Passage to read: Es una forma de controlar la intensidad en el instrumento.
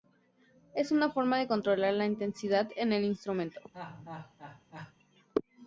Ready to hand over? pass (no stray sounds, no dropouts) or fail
fail